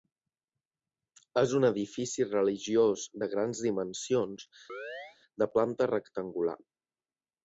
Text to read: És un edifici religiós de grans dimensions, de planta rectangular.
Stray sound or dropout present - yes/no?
yes